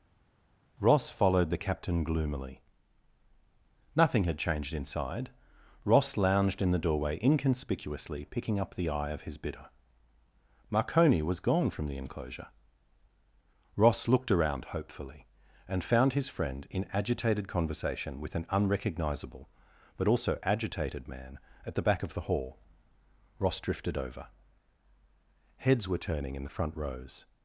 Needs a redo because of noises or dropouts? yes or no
no